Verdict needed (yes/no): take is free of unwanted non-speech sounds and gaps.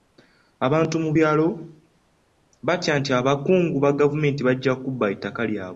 yes